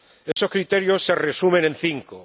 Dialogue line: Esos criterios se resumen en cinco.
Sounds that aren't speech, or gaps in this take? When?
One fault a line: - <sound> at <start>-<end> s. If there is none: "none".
- dropout at 0.3-0.4 s